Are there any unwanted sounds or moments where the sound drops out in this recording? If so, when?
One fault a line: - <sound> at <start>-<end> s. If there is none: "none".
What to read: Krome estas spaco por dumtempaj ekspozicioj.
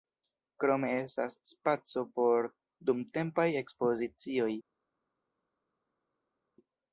none